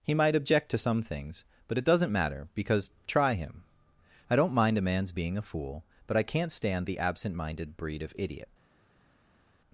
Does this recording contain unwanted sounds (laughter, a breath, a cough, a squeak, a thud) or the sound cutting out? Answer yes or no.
no